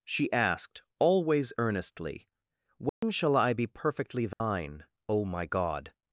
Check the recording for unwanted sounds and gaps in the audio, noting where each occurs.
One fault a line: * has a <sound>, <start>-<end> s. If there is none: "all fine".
* has a dropout, 2.9-3.0 s
* has a dropout, 4.3-4.4 s